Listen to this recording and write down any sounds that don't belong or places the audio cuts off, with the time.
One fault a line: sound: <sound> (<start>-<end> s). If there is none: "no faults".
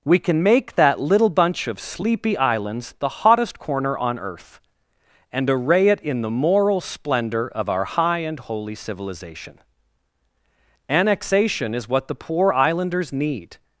no faults